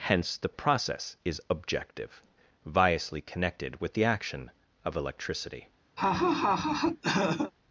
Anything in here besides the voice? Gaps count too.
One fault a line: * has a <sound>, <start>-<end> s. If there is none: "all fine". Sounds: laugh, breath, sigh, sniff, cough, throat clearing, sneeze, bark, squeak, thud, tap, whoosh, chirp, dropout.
* has a laugh, 6.0-7.5 s